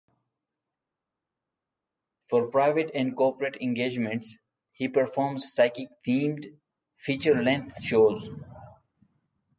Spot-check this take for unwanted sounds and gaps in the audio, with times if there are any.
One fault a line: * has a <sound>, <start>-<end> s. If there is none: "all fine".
all fine